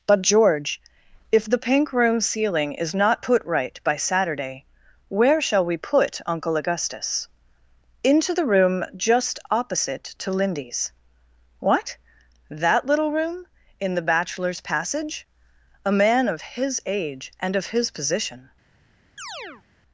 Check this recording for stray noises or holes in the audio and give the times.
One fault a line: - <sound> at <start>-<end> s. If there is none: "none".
- chirp at 19.2-19.6 s